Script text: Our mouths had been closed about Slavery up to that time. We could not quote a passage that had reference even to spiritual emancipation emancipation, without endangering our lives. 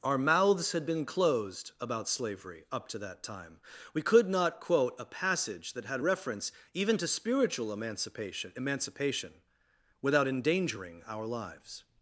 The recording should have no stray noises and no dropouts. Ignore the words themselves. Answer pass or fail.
pass